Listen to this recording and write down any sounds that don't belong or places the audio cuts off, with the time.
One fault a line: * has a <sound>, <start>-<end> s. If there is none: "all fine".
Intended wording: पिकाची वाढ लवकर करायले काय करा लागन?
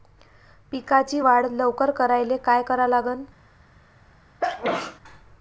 * has a sneeze, 4.4-5.0 s